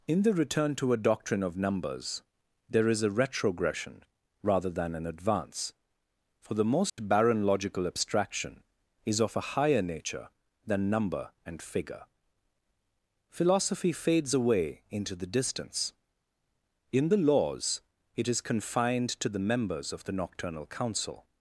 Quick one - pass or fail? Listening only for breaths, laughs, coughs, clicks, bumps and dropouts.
fail